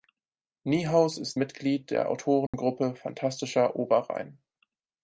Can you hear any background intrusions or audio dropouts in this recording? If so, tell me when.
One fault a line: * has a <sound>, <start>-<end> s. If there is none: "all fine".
* has a dropout, 2.5-2.5 s